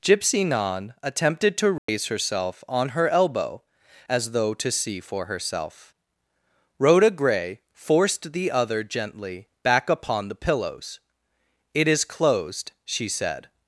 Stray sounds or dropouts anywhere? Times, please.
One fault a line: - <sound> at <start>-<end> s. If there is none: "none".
- dropout at 1.8-1.9 s